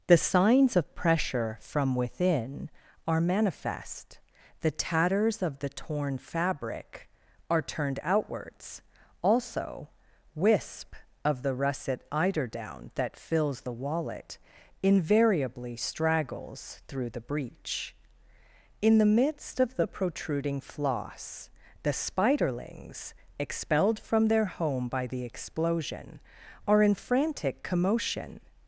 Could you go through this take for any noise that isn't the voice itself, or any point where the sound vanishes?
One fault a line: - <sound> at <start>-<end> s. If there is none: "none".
none